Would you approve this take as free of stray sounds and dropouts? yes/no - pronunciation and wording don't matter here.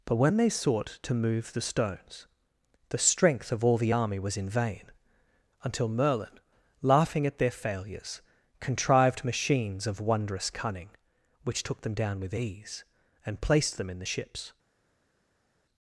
yes